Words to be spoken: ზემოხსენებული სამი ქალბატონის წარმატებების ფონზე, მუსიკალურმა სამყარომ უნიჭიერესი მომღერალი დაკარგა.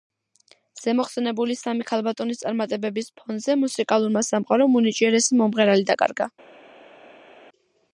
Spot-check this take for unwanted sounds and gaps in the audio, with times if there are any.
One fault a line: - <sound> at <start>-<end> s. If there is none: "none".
none